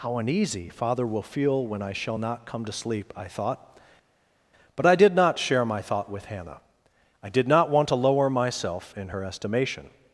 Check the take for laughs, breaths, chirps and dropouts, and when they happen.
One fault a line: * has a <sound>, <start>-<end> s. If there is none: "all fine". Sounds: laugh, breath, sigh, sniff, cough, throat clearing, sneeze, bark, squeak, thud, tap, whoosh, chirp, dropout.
all fine